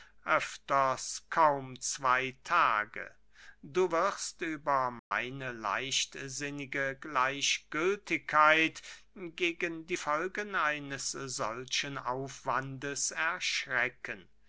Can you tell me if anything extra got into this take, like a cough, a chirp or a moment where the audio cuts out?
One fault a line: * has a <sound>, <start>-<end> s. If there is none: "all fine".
* has a dropout, 5.0-5.1 s